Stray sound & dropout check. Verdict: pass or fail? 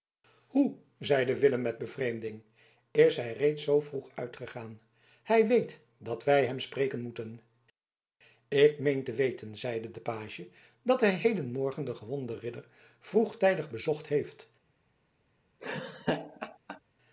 fail